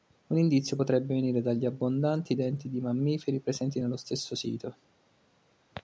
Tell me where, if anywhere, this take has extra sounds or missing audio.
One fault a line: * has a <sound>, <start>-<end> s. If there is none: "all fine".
all fine